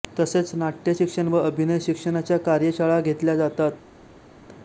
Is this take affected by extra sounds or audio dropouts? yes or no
no